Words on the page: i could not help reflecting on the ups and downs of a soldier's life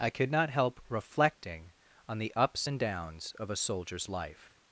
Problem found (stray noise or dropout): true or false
false